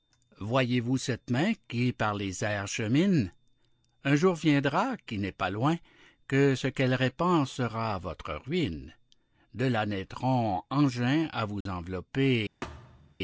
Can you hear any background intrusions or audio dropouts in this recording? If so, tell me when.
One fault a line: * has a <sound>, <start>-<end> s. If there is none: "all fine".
* has a dropout, 11.6-11.7 s
* has a thud, 12.6-13.1 s